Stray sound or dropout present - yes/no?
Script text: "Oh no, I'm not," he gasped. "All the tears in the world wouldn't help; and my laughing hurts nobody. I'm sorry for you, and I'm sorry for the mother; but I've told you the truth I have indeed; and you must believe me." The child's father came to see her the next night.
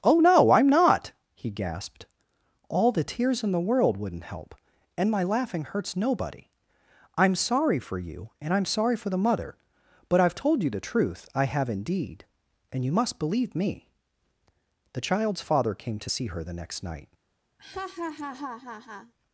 yes